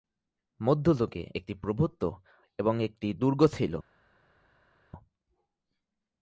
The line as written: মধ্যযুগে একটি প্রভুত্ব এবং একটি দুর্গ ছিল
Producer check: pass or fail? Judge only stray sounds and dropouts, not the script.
pass